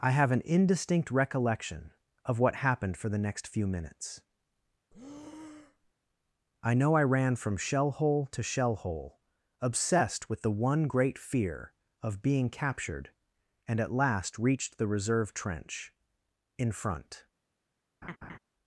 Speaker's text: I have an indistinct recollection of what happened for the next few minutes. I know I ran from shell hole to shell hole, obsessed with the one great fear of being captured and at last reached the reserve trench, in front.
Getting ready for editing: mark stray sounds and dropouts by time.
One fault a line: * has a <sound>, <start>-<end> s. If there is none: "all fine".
* has a breath, 4.9-5.9 s
* has a laugh, 18.0-18.4 s